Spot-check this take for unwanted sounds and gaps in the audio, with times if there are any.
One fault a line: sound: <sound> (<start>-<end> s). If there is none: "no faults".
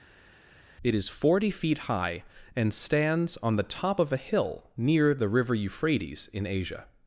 no faults